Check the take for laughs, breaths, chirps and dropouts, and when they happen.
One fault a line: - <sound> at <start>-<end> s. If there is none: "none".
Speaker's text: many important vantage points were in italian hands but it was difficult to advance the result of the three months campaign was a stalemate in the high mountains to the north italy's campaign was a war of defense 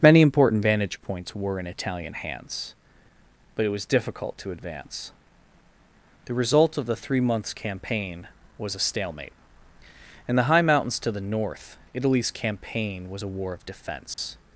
- dropout at 14.1-14.2 s